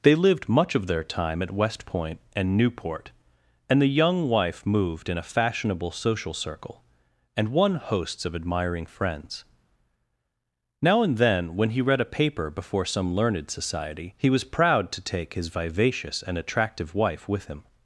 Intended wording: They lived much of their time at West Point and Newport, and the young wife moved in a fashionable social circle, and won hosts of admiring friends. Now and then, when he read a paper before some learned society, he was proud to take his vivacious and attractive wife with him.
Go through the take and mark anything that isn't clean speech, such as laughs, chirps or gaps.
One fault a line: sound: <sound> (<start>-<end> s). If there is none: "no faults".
no faults